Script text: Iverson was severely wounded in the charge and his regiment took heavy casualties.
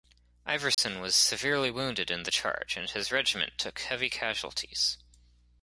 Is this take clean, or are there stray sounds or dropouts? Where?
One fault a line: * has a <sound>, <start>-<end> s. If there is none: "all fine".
* has a dropout, 0.7-0.8 s